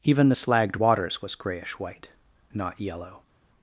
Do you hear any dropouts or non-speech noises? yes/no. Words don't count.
no